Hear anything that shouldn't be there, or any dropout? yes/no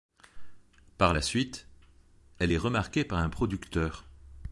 no